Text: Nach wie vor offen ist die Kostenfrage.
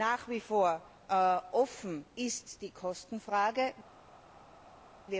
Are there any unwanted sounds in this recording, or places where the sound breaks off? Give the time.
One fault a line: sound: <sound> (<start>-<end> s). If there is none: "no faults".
no faults